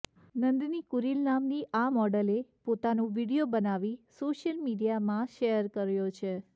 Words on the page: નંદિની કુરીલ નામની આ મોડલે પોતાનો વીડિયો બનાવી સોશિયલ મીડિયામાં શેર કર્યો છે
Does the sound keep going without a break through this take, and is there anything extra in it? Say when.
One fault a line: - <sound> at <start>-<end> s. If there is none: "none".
none